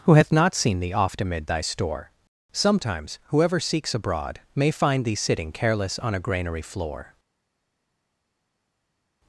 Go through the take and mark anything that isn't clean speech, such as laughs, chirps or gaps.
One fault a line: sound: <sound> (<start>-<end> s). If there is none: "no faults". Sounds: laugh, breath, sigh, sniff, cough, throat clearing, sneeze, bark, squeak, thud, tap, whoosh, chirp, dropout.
no faults